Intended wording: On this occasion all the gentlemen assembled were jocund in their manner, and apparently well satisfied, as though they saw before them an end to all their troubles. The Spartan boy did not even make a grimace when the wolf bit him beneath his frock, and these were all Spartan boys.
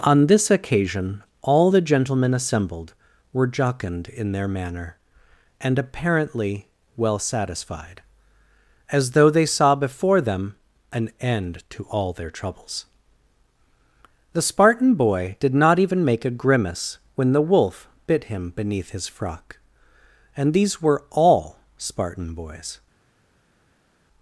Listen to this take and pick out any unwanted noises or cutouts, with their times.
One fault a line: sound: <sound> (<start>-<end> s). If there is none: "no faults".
no faults